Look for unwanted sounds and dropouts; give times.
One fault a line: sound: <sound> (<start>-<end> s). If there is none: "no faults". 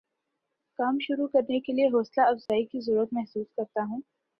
sound: dropout (2.5-2.5 s)